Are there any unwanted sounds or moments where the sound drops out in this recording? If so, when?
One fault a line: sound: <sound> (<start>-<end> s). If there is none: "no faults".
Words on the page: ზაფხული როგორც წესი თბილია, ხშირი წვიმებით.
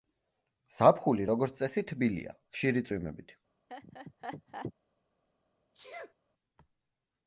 sound: laugh (3.7-4.7 s)
sound: sneeze (5.7-6.1 s)